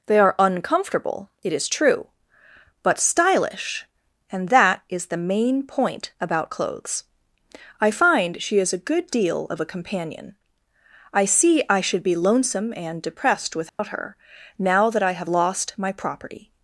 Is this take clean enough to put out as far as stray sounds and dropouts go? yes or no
no